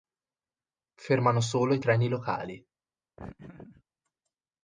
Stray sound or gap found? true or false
true